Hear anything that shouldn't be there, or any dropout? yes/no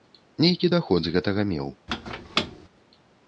yes